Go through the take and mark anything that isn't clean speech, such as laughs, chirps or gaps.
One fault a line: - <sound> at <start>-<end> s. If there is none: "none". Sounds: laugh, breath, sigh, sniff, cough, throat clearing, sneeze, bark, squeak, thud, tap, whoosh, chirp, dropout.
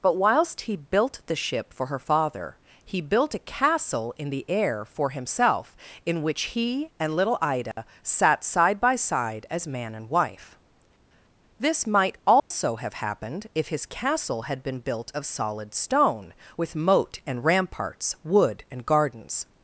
- dropout at 7.7-7.8 s
- dropout at 12.4-12.5 s